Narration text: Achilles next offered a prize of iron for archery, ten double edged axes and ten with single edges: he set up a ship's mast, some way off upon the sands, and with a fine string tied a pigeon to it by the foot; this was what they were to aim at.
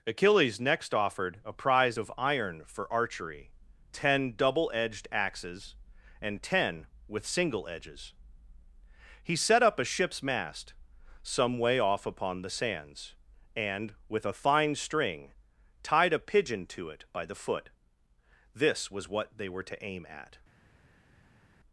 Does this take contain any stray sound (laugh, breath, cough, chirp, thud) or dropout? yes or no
no